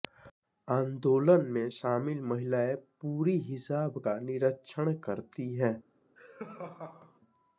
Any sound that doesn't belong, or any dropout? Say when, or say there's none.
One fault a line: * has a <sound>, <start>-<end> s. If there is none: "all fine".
* has a laugh, 6.2-7.2 s